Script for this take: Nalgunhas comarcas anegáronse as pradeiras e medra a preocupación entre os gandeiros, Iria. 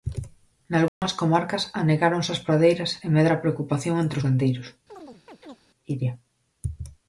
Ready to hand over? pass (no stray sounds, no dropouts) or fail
fail